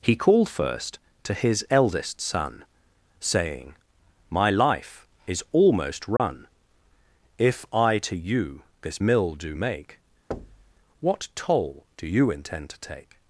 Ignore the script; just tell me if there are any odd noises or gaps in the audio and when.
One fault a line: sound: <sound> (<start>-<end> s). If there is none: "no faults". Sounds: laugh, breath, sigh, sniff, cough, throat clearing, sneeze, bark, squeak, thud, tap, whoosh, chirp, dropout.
sound: dropout (6.2-6.2 s)
sound: thud (10.3-10.7 s)